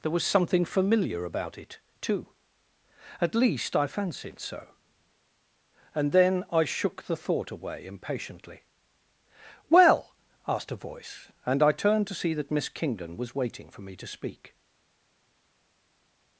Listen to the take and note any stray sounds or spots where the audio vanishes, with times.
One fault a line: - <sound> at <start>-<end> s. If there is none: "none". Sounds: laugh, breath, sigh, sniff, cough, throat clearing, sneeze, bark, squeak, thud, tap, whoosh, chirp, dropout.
none